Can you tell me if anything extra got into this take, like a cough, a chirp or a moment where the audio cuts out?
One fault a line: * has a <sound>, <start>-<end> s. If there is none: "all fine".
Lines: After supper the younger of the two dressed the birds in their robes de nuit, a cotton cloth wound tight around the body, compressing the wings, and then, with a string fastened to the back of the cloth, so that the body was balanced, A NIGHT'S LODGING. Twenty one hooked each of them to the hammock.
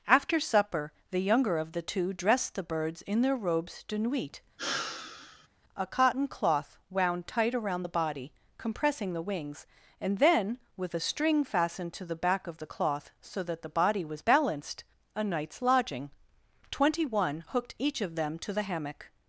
* has a sigh, 4.6-5.5 s